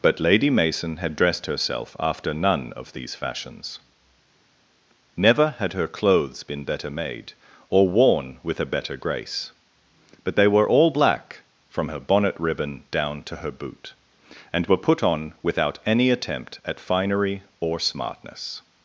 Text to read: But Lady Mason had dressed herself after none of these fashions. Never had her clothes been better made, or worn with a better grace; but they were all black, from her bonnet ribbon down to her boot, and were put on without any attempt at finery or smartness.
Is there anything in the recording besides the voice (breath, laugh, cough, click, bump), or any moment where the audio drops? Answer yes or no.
no